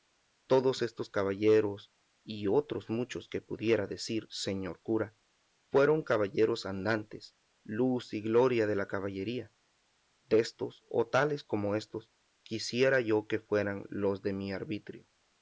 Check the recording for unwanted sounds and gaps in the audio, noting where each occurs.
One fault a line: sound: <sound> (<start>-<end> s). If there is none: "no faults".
no faults